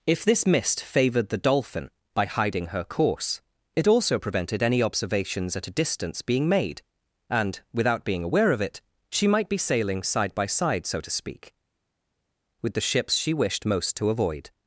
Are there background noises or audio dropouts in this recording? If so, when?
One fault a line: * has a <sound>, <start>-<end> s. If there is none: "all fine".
all fine